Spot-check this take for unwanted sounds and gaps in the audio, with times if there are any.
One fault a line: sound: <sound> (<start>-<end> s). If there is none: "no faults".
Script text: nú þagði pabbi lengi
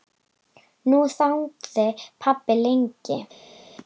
no faults